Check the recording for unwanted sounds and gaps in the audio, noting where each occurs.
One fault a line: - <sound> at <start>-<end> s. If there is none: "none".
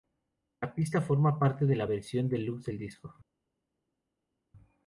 none